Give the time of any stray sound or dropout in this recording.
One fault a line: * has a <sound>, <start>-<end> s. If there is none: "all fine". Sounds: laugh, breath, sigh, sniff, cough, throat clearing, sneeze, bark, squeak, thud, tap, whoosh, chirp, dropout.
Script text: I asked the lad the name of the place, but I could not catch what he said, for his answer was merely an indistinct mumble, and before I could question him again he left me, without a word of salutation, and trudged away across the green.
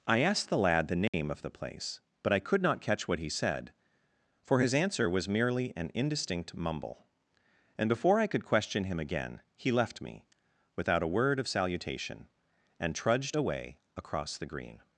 * has a dropout, 1.1-1.1 s